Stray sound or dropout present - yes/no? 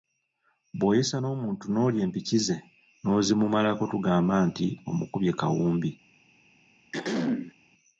yes